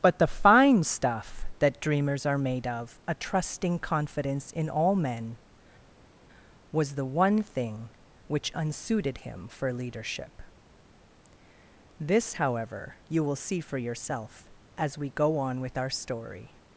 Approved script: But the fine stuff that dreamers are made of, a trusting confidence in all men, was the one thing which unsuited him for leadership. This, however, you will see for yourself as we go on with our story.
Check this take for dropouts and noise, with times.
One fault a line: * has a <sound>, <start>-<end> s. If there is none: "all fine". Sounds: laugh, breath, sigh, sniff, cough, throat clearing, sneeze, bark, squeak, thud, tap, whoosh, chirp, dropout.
all fine